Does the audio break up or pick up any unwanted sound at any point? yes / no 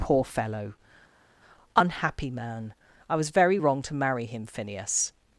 no